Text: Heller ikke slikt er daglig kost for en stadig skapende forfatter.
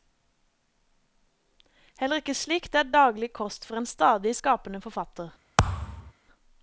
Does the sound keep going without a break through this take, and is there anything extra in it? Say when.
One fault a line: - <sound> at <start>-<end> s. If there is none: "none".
- thud at 5.6-6.1 s